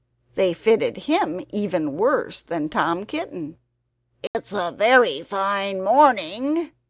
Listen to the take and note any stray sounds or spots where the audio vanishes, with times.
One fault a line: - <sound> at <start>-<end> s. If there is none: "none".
- dropout at 4.3-4.3 s